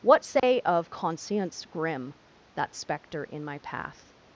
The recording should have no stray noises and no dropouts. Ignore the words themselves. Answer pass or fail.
fail